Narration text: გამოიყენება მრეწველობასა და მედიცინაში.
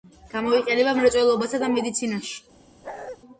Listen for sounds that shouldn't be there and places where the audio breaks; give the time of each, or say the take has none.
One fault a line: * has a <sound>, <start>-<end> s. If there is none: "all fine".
* has a bark, 2.8-3.2 s